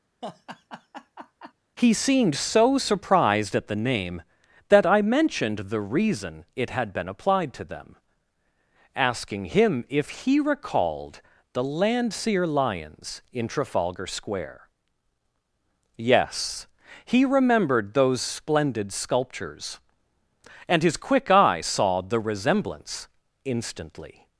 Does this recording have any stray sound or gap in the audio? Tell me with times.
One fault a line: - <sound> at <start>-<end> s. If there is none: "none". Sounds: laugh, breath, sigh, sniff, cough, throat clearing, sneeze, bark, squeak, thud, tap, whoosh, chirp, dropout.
- laugh at 0.2-1.5 s